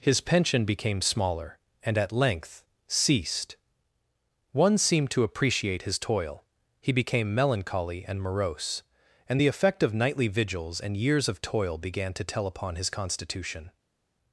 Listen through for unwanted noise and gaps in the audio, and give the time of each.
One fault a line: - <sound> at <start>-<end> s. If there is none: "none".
none